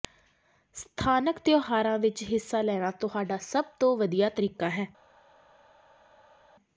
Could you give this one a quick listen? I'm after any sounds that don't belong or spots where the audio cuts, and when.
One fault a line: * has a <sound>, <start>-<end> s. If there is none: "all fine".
all fine